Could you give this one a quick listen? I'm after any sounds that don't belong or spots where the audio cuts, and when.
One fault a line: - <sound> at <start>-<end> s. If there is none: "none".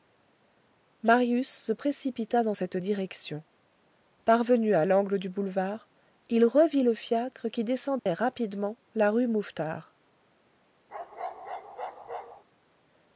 - dropout at 8.0-8.1 s
- bark at 10.9-12.4 s